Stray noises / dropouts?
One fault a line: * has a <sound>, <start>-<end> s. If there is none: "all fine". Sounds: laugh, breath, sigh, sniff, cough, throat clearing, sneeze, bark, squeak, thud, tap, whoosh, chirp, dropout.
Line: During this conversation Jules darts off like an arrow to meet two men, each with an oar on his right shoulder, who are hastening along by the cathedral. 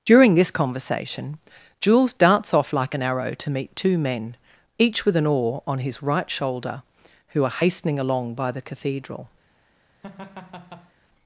* has a laugh, 10.0-10.9 s